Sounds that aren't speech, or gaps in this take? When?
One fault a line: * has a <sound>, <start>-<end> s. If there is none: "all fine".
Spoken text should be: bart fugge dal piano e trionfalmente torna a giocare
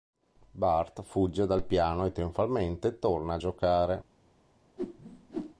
* has a whoosh, 4.8-5.6 s